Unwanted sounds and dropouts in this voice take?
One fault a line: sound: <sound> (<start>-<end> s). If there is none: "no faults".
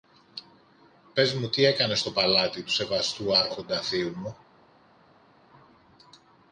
no faults